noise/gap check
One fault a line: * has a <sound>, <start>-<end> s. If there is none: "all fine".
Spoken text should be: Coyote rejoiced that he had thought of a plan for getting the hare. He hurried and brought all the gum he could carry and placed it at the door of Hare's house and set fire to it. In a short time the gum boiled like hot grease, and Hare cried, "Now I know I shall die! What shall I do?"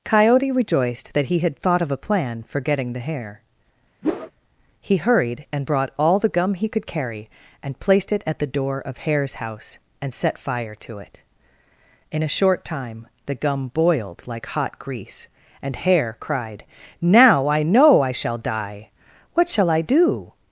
* has a whoosh, 4.0-4.3 s